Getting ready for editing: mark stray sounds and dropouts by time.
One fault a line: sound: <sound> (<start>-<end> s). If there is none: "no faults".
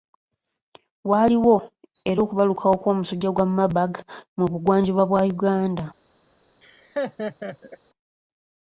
sound: laugh (6.6-7.8 s)